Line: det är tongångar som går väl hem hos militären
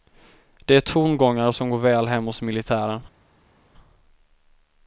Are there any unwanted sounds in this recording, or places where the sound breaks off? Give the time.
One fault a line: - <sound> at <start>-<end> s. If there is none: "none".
none